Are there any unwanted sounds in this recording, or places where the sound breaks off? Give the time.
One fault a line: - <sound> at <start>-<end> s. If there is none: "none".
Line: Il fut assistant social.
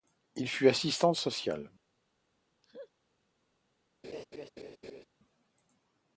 - laugh at 2.6-2.9 s
- laugh at 4.0-5.1 s